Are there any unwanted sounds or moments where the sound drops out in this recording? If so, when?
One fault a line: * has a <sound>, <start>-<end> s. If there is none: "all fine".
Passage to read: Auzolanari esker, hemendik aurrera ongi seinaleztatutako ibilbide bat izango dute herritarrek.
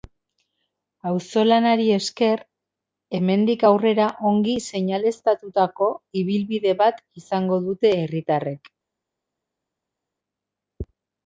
all fine